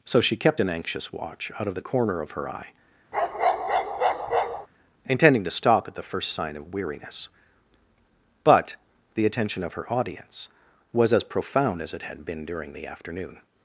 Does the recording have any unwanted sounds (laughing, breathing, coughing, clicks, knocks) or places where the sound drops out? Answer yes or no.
yes